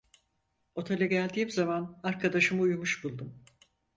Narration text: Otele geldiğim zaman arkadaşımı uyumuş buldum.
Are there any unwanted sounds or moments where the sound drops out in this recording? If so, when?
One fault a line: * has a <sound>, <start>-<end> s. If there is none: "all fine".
all fine